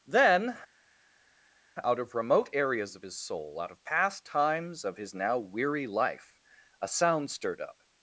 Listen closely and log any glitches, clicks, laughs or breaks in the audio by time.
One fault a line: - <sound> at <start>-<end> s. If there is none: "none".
none